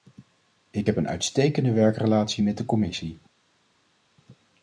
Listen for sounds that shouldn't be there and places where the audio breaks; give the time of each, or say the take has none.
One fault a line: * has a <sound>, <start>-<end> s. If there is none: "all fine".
all fine